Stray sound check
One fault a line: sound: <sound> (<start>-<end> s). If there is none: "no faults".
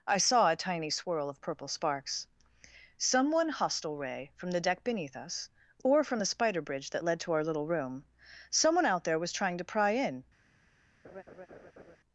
sound: laugh (11.0-12.0 s)